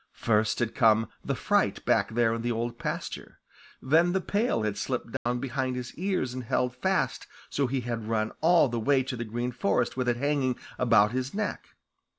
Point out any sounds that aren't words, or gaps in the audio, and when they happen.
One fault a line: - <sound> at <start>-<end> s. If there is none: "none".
- dropout at 5.2-5.3 s